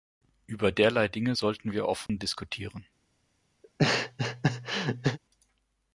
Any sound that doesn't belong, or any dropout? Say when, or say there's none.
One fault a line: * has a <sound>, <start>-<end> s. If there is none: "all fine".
* has a dropout, 2.1-2.1 s
* has a laugh, 3.6-5.2 s